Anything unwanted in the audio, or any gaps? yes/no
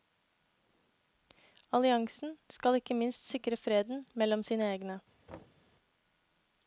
yes